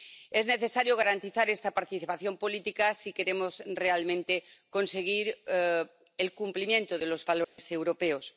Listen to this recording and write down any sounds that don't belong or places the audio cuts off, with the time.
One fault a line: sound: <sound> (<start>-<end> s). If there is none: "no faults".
sound: dropout (7.4-7.6 s)